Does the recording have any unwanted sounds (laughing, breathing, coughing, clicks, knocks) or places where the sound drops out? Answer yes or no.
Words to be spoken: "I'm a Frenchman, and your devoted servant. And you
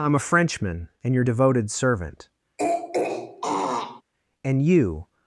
yes